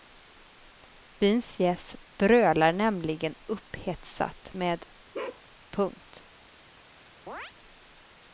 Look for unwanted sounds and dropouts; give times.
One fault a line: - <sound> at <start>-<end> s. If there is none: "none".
- bark at 5.1-5.4 s
- chirp at 7.3-7.5 s